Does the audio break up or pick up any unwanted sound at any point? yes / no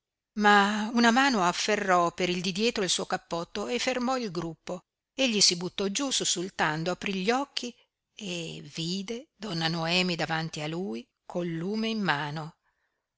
no